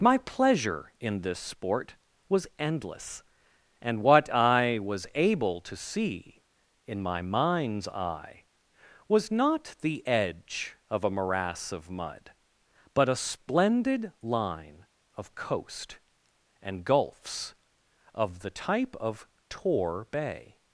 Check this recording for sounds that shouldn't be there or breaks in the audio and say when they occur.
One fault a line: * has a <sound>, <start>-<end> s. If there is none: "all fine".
all fine